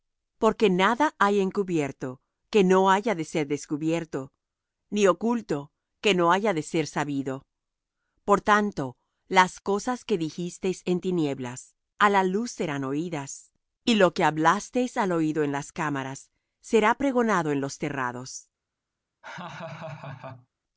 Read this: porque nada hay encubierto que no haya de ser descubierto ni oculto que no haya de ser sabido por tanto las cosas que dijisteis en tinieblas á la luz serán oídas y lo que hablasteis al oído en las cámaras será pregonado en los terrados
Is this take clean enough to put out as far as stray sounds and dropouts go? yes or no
no